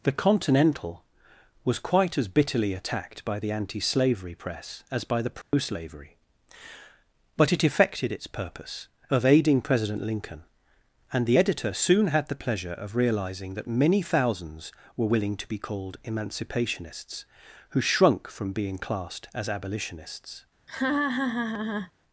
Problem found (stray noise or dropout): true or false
true